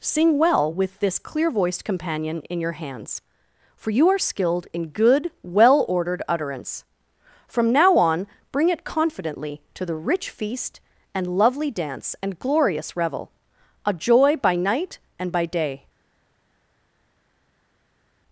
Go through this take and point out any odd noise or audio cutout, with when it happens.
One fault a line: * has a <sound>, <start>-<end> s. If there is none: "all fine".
all fine